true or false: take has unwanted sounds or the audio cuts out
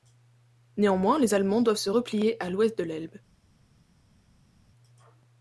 false